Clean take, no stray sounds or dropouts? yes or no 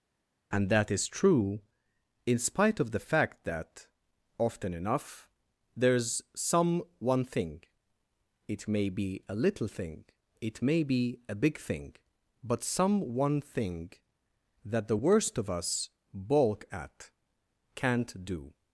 yes